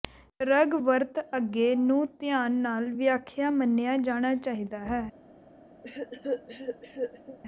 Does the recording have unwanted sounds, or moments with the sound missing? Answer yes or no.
yes